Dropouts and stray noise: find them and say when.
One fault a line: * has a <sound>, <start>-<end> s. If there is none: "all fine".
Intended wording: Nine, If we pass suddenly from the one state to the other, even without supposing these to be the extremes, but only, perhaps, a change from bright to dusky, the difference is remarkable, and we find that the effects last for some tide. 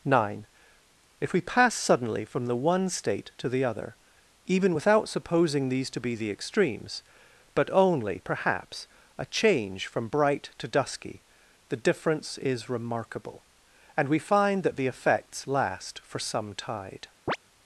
* has a chirp, 17.3-17.4 s